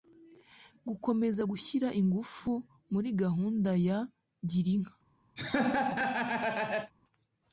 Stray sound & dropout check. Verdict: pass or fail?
fail